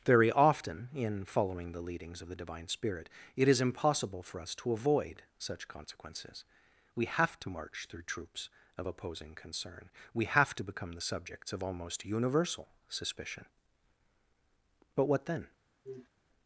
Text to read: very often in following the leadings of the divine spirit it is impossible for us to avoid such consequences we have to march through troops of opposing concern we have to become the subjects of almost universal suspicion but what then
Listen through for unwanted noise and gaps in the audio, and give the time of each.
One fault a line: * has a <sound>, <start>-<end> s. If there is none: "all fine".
* has a sniff, 15.8-16.1 s